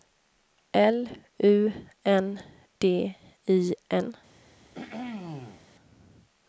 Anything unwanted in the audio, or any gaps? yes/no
yes